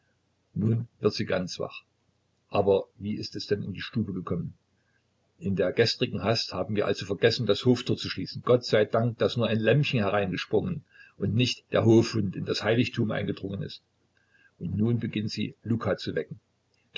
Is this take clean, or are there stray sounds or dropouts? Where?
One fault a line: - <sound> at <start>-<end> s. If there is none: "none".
none